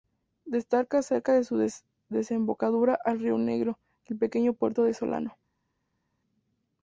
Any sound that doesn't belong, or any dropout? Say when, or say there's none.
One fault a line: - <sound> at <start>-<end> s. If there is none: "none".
none